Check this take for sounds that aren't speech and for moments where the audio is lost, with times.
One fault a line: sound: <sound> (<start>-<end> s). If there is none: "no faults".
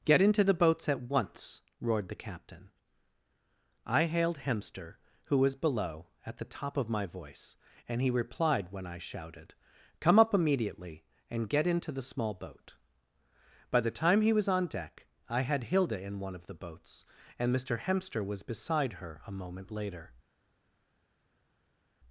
no faults